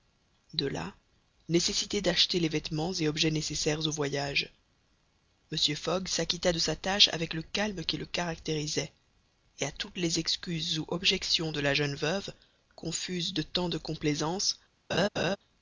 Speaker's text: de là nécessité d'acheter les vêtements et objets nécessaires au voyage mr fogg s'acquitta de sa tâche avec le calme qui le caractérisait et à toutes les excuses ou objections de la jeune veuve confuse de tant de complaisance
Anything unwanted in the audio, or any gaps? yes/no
yes